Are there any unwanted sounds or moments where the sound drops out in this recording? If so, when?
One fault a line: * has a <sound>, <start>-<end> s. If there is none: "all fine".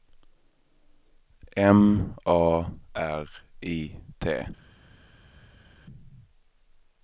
all fine